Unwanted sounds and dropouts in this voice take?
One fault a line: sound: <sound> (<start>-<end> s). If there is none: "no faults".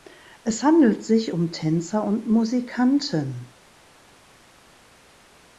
no faults